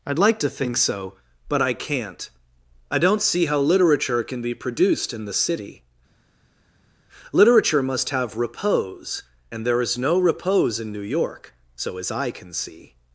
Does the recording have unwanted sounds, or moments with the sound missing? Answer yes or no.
no